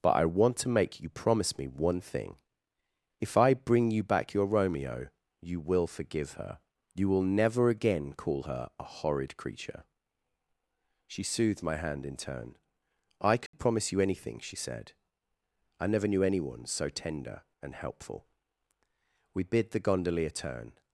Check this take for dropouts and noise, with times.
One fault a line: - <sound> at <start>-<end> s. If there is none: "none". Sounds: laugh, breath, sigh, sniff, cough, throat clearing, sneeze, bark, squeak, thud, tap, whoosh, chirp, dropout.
- dropout at 13.5-13.5 s